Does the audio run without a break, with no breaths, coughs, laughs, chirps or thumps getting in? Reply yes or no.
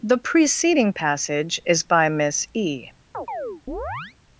no